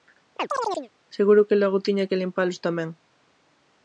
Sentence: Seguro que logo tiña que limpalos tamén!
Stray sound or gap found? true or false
true